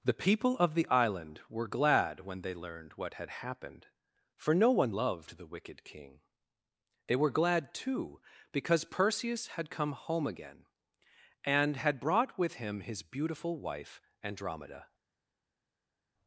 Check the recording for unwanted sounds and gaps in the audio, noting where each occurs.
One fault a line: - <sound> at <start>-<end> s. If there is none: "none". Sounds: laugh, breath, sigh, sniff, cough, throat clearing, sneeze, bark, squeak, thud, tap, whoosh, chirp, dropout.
none